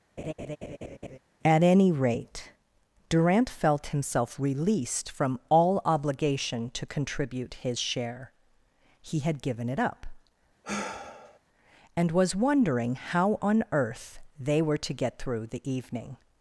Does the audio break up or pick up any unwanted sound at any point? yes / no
yes